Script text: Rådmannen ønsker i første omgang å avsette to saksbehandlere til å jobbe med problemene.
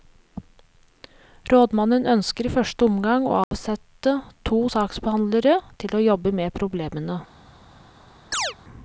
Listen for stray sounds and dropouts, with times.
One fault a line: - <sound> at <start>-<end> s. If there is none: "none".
- dropout at 3.4-3.5 s
- chirp at 8.3-8.6 s